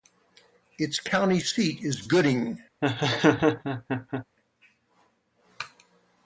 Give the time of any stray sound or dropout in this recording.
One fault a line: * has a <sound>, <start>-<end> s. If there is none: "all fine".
* has a laugh, 2.8-4.3 s